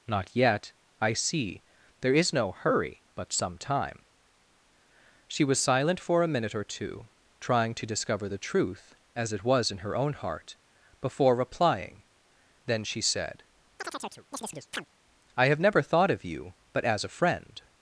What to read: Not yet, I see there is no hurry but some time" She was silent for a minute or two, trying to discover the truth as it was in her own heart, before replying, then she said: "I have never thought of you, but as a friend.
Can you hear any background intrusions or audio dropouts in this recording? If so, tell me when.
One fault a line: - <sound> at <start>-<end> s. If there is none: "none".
- chirp at 13.8-14.9 s